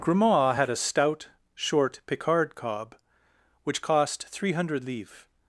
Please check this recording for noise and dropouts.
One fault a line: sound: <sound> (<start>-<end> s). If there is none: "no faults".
no faults